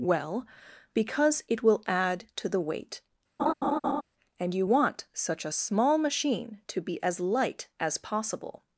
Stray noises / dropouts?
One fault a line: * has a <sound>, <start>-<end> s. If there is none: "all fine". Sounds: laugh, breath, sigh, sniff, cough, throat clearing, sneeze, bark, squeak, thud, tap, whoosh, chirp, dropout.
* has a laugh, 3.4-4.0 s